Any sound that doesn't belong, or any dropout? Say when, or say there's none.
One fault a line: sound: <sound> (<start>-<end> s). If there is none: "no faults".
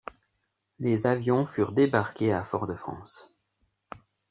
no faults